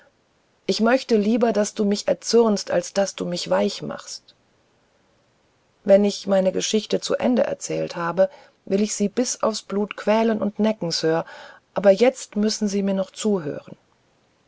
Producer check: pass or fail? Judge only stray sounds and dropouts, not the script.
pass